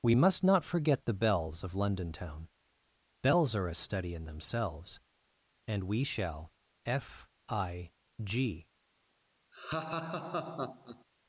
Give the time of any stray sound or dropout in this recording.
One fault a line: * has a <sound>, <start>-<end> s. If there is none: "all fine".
* has a laugh, 9.5-11.0 s